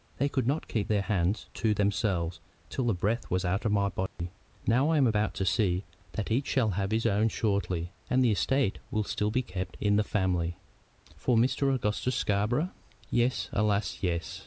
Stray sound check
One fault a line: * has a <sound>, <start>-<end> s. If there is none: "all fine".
* has a dropout, 4.1-4.2 s